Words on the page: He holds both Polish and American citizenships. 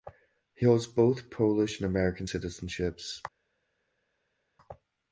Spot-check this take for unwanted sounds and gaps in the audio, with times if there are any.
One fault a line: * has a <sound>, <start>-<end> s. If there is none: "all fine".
all fine